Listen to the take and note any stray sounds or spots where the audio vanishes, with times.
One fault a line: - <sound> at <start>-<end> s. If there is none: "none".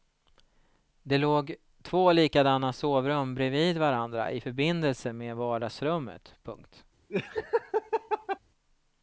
- laugh at 7.1-8.4 s